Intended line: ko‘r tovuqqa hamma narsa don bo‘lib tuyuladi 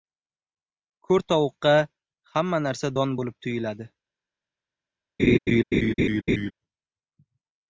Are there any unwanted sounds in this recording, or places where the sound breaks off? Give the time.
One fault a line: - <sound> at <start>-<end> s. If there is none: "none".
- laugh at 5.2-6.5 s